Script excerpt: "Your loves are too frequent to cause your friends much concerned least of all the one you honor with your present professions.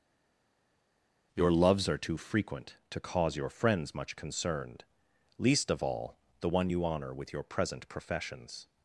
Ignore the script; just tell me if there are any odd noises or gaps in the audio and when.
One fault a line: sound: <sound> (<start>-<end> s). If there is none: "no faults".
no faults